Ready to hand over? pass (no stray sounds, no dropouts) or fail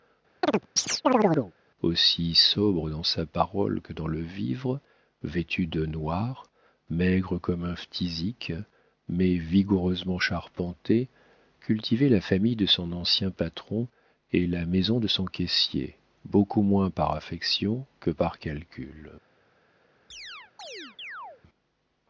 fail